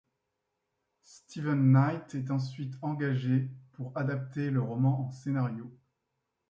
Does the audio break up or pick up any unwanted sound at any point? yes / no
no